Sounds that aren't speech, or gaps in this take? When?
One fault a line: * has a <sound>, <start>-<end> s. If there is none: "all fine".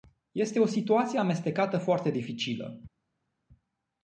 all fine